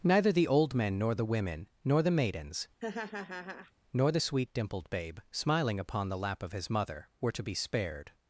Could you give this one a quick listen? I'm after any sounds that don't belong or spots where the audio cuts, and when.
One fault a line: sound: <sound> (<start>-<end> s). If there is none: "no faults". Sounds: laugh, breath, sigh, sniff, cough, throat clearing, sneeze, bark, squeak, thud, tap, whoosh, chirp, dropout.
sound: laugh (2.8-3.7 s)